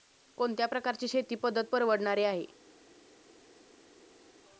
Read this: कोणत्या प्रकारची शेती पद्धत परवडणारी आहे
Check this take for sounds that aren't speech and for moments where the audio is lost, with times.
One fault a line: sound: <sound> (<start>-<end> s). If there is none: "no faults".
no faults